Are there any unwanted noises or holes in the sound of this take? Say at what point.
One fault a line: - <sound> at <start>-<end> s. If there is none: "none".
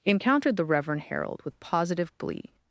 none